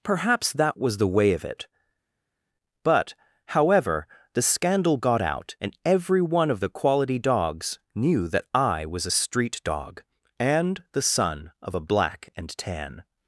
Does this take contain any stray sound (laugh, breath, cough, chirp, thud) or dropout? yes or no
no